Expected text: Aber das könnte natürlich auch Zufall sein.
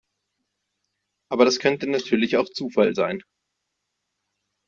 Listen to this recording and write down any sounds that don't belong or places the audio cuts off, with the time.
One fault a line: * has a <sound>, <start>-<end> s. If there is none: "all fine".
all fine